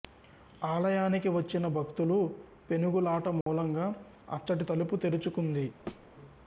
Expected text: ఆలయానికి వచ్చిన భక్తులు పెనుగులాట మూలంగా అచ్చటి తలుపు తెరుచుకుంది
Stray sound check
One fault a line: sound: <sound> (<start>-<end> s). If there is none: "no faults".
sound: dropout (3.4-3.5 s)
sound: thud (5.9-6.1 s)